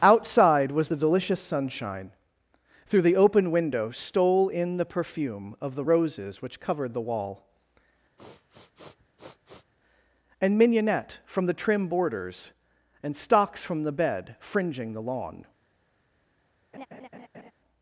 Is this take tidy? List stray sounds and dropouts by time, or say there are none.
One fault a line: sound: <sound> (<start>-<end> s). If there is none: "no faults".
sound: sniff (8.2-9.7 s)
sound: laugh (16.7-17.5 s)